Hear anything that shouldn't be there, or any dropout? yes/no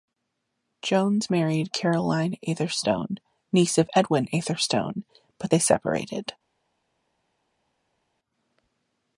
no